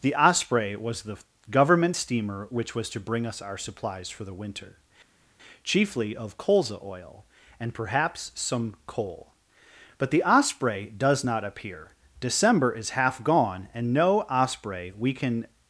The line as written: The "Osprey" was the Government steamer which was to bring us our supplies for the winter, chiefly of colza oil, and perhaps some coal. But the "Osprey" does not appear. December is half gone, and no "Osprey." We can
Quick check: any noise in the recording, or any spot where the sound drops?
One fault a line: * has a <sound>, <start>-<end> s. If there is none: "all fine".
all fine